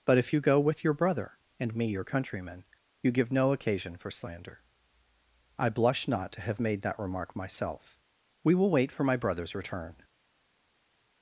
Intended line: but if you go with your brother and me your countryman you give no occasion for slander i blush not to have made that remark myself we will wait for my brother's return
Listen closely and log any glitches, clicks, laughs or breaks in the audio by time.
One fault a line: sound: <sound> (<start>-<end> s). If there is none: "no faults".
no faults